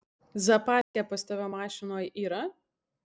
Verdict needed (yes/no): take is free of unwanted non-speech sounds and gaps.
no